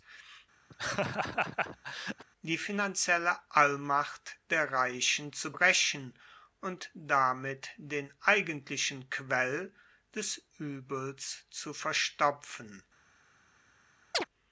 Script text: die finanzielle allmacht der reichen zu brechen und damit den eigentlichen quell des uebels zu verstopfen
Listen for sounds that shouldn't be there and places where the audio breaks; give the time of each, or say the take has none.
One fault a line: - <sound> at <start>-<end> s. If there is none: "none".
- laugh at 0.7-2.2 s
- chirp at 14.1-14.3 s